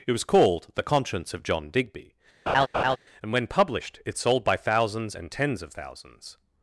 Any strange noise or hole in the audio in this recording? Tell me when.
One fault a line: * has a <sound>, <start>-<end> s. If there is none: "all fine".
* has a laugh, 2.5-3.0 s